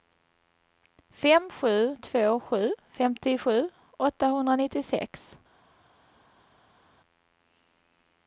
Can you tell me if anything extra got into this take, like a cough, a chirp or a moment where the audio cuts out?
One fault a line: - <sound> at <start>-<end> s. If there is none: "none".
none